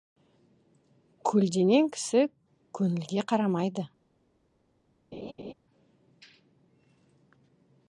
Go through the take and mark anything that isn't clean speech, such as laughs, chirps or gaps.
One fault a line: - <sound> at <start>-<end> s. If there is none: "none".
- laugh at 5.1-5.5 s